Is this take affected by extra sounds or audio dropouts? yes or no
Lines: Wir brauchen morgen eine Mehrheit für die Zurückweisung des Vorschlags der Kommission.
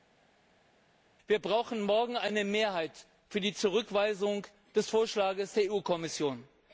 no